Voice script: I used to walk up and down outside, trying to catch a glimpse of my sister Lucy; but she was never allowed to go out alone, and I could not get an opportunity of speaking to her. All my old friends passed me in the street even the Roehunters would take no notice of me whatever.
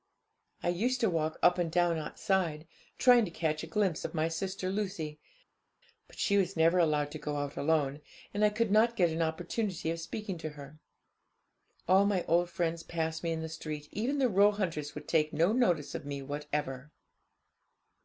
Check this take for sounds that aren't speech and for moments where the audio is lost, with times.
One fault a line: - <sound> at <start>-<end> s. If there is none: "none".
none